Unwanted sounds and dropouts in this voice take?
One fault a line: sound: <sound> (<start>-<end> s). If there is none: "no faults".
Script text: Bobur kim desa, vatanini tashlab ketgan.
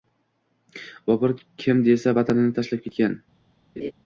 sound: laugh (3.8-3.9 s)